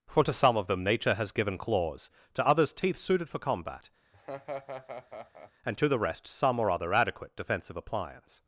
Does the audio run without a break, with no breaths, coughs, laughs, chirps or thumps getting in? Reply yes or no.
no